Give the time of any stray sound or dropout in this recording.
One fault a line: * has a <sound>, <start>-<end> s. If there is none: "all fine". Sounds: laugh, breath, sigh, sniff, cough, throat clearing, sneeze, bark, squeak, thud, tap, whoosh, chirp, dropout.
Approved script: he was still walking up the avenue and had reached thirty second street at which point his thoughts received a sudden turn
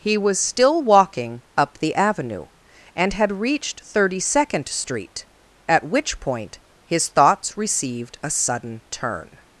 all fine